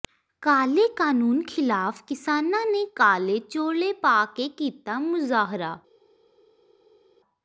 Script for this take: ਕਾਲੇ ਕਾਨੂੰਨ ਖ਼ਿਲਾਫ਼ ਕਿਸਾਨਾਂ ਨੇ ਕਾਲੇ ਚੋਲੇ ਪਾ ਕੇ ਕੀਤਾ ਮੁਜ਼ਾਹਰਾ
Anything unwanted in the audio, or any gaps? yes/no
no